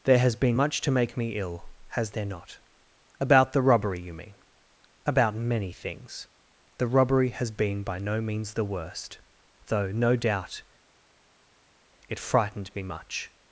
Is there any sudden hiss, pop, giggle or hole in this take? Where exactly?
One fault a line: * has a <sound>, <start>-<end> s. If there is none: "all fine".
all fine